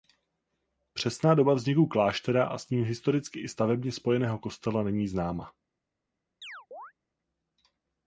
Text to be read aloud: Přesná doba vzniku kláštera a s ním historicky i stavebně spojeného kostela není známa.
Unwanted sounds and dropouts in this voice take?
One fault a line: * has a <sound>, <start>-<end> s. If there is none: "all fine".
* has a chirp, 6.4-6.9 s